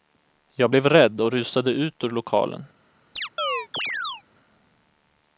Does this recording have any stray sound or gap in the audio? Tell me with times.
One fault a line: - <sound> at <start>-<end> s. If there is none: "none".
- chirp at 3.2-4.2 s